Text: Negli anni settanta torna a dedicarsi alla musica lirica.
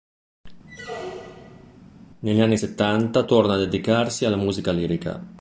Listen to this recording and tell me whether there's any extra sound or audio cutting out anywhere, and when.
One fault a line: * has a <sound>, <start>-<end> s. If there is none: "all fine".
* has a squeak, 0.7-1.8 s